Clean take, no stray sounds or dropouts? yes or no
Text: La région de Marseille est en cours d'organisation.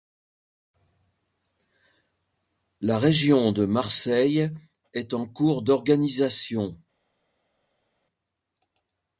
yes